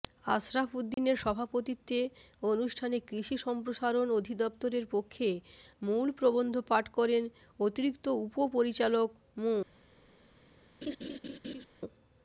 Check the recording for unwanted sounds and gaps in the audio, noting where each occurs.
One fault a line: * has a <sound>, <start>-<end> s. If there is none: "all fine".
* has a dropout, 0.9-1.0 s
* has a laugh, 10.8-11.7 s